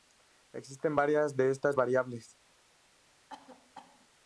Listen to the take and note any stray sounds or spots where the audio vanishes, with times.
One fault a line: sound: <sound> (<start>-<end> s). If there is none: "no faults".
sound: cough (3.3-4.1 s)